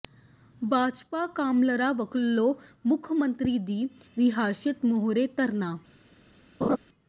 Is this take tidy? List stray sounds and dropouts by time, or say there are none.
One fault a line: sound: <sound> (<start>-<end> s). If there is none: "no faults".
sound: laugh (6.6-6.8 s)